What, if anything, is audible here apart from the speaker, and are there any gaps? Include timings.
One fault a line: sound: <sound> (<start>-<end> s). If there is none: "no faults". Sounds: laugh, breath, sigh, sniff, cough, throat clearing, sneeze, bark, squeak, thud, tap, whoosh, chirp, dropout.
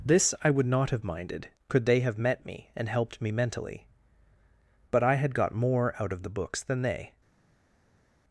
no faults